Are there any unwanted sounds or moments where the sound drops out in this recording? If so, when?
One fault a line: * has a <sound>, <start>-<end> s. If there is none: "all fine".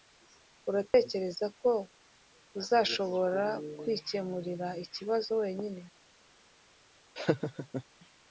* has a dropout, 0.9-0.9 s
* has a laugh, 7.2-7.8 s